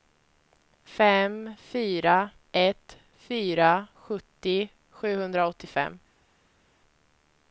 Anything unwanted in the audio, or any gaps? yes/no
no